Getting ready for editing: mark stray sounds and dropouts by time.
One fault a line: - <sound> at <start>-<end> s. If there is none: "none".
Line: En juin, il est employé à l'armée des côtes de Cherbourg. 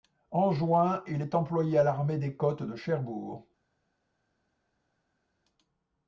none